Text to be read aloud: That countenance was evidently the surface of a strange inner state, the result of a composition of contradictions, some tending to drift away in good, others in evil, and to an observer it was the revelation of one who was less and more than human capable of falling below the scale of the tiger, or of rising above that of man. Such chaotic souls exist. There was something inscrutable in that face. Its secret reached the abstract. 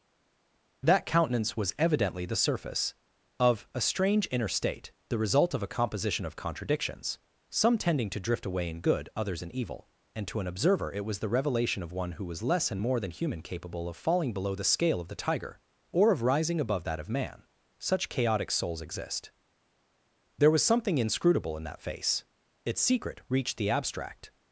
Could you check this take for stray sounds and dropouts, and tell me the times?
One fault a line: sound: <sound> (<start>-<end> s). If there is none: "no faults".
no faults